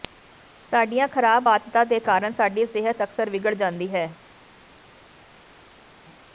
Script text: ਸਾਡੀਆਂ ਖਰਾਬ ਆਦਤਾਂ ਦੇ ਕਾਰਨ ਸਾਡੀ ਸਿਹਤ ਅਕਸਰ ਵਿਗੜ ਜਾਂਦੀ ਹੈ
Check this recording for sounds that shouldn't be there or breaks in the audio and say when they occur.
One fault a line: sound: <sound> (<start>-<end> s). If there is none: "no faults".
no faults